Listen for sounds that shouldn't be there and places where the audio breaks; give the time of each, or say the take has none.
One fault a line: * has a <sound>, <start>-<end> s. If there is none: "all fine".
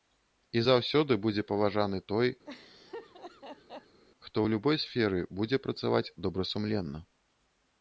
* has a laugh, 2.4-4.0 s